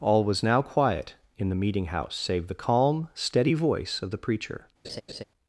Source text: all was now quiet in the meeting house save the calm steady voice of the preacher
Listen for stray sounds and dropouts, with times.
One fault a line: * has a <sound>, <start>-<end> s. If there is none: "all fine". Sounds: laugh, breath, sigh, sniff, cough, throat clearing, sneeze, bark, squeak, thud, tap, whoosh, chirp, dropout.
* has a laugh, 4.8-5.2 s